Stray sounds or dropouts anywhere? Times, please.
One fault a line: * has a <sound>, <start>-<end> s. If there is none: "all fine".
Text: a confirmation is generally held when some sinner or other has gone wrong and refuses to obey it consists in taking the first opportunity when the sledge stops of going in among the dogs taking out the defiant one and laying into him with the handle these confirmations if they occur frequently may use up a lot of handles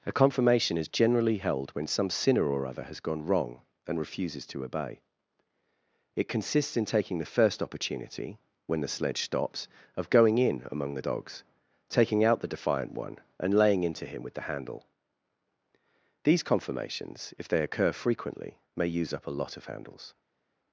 all fine